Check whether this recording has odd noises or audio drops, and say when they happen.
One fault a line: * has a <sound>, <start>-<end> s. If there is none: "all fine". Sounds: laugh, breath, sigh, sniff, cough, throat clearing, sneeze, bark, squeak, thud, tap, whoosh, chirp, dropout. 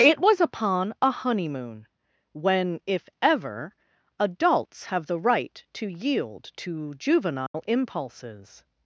* has a dropout, 7.5-7.5 s